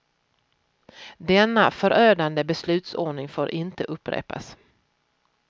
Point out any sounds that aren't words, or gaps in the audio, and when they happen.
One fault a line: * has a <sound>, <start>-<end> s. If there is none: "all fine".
all fine